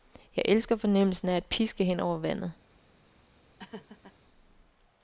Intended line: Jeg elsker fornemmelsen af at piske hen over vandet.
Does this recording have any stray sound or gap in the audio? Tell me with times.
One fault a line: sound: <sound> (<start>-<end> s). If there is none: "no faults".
sound: laugh (3.6-4.2 s)